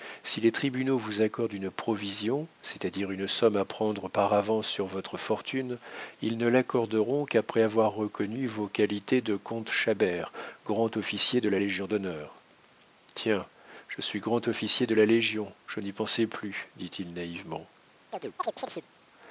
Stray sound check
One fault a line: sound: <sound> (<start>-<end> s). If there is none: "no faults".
sound: chirp (18.1-18.9 s)